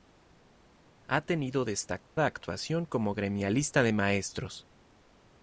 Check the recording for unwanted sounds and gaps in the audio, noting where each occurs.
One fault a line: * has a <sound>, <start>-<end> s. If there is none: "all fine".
* has a dropout, 2.0-2.2 s